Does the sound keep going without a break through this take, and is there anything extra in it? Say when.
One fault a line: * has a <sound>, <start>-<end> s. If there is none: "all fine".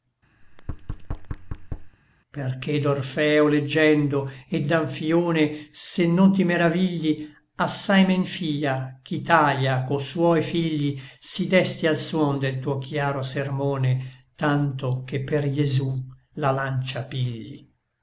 * has a thud, 0.4-2.0 s